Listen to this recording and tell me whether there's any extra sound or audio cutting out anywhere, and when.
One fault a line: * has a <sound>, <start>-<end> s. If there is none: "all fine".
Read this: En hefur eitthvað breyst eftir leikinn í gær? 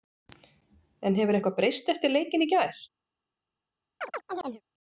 * has a chirp, 4.0-4.6 s